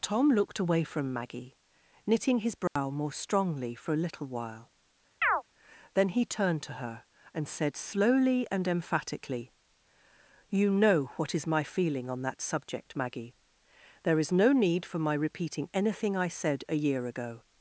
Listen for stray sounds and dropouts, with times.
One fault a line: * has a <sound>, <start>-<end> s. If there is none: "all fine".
* has a dropout, 2.7-2.8 s
* has a chirp, 5.2-5.4 s